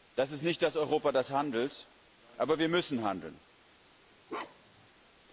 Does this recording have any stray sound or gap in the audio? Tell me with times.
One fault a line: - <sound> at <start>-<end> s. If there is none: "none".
- bark at 4.3-4.9 s